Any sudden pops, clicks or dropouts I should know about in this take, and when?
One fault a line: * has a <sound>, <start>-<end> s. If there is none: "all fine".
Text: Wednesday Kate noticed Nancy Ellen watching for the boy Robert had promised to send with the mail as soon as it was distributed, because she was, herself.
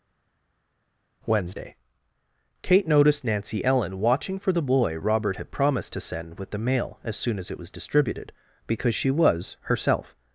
all fine